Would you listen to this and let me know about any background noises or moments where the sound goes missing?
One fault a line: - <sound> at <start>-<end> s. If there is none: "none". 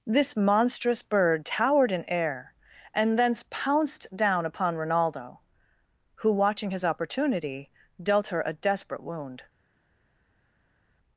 none